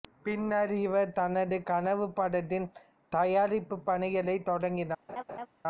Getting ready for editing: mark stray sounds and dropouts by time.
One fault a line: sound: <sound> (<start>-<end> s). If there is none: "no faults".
sound: laugh (5.1-5.5 s)